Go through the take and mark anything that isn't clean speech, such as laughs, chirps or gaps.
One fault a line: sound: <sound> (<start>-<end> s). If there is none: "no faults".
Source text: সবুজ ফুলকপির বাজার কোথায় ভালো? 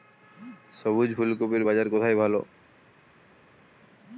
no faults